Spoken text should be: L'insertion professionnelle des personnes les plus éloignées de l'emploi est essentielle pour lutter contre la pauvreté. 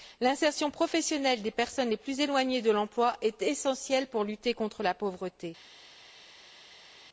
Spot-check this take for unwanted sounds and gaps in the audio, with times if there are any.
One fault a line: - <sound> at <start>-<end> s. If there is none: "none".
none